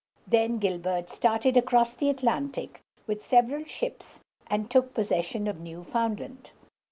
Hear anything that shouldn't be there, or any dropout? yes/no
no